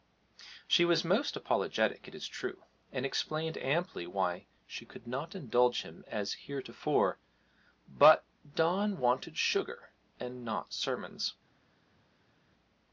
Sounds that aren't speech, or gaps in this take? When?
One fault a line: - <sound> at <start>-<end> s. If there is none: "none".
none